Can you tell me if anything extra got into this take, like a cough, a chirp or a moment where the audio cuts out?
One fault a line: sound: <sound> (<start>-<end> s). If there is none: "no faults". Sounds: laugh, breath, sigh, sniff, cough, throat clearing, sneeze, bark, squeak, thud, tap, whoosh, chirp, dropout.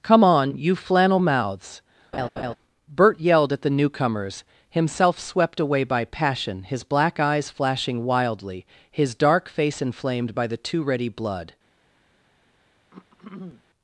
sound: laugh (2.1-2.6 s)
sound: throat clearing (12.9-13.6 s)